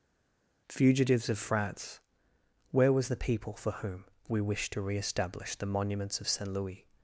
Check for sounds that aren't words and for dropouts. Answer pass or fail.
pass